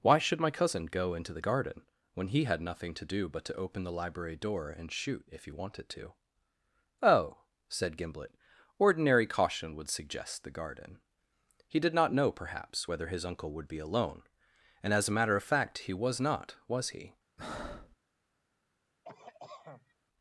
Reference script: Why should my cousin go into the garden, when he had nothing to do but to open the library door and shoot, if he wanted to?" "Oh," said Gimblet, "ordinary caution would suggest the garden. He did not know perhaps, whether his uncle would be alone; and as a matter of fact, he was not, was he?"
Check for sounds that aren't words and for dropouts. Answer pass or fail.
fail